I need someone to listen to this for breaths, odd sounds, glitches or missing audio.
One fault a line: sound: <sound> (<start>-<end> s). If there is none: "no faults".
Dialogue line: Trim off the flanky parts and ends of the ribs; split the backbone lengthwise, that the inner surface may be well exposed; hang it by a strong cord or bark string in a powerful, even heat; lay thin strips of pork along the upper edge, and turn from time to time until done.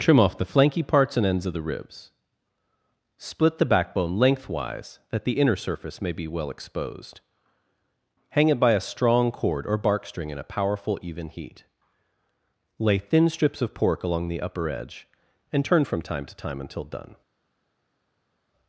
no faults